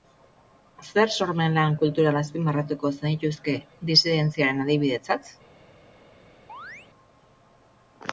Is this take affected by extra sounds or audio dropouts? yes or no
yes